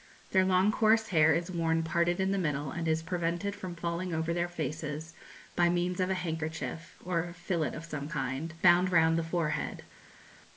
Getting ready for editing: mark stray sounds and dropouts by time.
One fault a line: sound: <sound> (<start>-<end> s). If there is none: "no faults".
no faults